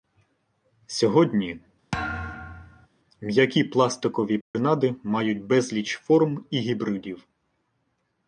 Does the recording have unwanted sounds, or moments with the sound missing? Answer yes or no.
yes